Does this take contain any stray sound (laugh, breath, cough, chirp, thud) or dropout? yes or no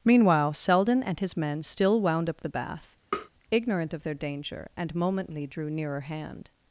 yes